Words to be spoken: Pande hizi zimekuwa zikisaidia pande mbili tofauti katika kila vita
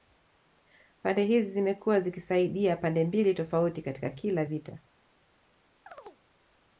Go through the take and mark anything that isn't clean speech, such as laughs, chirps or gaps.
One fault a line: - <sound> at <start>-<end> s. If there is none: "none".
- chirp at 5.9-6.2 s